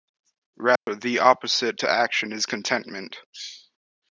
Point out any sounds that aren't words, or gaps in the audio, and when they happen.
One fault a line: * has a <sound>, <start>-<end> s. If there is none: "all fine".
* has a dropout, 0.8-0.9 s